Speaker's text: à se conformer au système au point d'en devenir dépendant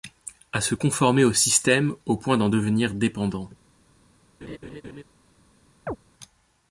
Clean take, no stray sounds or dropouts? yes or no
no